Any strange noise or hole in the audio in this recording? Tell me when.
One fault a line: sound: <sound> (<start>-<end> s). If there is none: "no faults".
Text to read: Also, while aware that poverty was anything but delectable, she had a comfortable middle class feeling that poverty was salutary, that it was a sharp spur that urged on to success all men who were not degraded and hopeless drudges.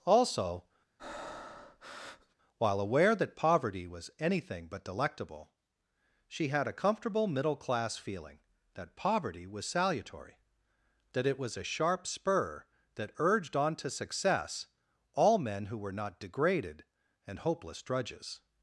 sound: breath (1.0-2.4 s)